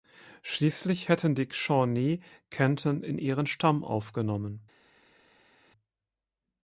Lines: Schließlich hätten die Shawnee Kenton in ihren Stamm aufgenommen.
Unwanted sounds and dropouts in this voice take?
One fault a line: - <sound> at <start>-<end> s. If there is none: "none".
none